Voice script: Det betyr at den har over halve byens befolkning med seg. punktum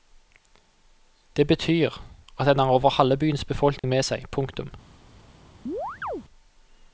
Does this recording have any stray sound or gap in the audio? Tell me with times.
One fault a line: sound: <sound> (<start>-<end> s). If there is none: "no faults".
sound: dropout (3.8-3.8 s)
sound: chirp (5.7-6.2 s)